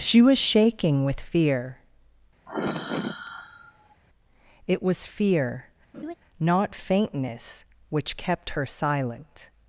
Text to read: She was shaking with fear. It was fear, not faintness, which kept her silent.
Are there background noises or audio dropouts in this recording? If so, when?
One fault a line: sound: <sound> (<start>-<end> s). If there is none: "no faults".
sound: sigh (2.5-4.0 s)
sound: laugh (5.9-6.1 s)